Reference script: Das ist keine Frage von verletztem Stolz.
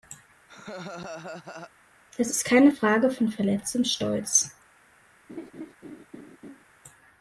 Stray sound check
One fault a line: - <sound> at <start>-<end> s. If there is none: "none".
- laugh at 0.5-1.7 s
- laugh at 5.3-6.7 s